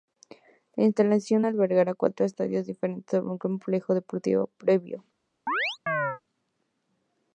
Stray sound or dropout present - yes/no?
yes